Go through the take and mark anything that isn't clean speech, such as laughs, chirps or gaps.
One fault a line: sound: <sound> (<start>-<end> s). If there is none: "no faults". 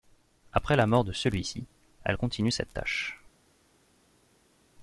no faults